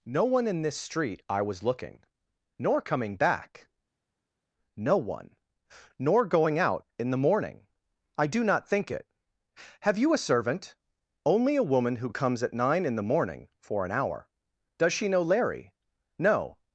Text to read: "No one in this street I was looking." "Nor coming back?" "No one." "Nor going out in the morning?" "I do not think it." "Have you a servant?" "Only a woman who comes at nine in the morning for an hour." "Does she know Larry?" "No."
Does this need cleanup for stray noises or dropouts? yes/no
no